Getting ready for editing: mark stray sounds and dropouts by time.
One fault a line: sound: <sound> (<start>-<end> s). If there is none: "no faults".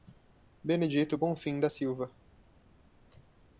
no faults